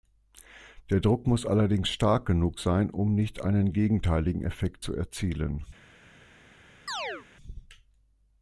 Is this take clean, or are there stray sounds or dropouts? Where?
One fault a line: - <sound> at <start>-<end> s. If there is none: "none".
- chirp at 6.9-7.3 s